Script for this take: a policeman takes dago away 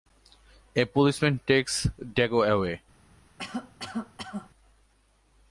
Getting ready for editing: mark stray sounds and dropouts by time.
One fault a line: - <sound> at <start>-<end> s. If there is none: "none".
- cough at 3.4-4.5 s